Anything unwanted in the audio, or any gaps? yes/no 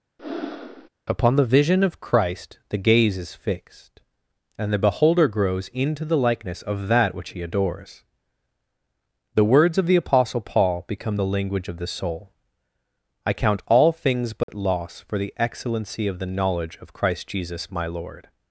yes